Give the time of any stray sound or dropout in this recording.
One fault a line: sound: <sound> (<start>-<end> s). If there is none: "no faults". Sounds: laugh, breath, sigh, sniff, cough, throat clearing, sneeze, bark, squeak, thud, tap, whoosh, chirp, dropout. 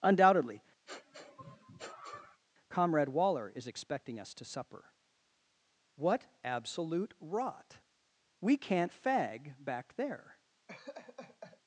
sound: sniff (0.9-2.4 s)
sound: laugh (10.7-11.6 s)